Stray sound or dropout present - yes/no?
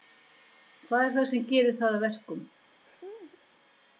yes